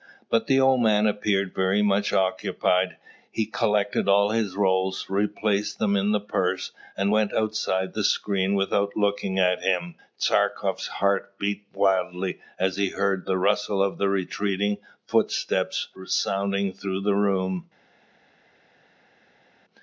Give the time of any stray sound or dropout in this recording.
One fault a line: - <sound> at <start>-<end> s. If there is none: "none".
none